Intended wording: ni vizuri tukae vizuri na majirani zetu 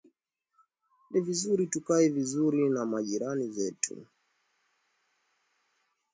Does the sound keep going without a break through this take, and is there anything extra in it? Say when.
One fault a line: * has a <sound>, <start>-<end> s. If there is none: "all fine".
all fine